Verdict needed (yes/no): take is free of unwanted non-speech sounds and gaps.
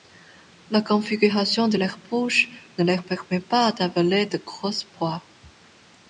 yes